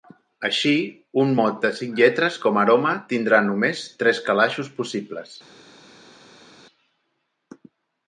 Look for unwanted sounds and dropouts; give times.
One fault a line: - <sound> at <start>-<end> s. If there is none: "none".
none